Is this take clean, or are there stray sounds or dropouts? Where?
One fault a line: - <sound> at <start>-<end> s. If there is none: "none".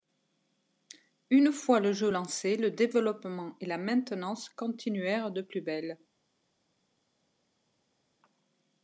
none